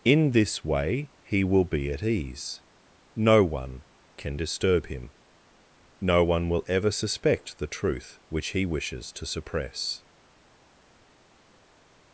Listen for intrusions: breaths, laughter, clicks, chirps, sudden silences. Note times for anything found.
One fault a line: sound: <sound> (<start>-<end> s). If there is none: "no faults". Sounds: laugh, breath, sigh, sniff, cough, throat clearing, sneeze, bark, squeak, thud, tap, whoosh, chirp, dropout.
no faults